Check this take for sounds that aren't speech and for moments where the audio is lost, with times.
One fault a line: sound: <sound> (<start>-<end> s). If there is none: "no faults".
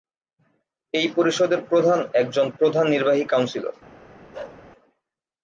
sound: bark (4.3-4.6 s)